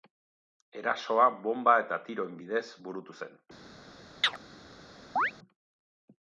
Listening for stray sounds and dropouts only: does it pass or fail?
fail